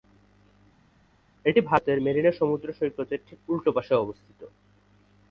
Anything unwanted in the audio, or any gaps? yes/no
no